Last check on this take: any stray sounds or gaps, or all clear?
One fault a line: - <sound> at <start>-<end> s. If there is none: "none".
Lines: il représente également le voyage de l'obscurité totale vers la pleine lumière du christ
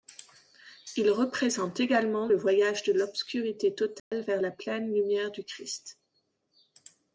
- dropout at 4.0-4.1 s